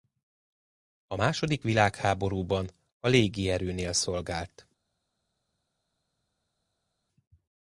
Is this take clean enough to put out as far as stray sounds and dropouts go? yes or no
yes